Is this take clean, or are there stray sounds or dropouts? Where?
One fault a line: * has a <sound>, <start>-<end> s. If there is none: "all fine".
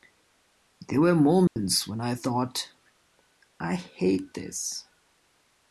* has a dropout, 1.5-1.6 s